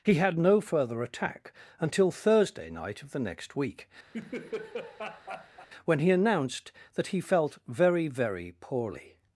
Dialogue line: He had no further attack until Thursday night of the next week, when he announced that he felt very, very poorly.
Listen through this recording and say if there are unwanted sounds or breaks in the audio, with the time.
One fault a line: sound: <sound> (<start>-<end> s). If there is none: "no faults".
sound: laugh (4.1-5.7 s)